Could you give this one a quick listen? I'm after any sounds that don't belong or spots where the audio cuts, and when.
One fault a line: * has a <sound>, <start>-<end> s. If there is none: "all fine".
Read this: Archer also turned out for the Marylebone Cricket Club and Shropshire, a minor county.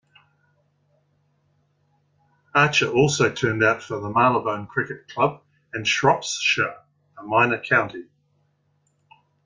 all fine